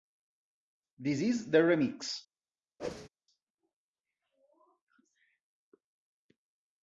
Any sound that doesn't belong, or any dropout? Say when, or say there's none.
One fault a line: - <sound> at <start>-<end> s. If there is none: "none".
- whoosh at 2.8-3.1 s